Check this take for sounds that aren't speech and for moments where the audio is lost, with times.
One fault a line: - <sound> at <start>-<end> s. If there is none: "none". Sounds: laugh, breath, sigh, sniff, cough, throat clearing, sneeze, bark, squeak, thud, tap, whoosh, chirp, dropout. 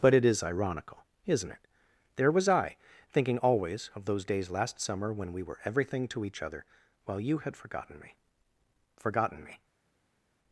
none